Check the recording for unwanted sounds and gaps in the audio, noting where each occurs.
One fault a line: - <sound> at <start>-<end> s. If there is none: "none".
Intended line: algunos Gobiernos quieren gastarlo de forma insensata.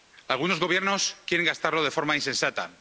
none